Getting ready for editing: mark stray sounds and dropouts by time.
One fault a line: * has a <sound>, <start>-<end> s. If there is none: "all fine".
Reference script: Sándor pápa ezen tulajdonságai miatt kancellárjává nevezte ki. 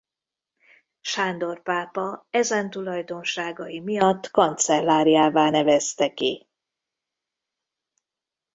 all fine